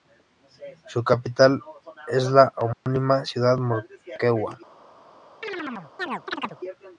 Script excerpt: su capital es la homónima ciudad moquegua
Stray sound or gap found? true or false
true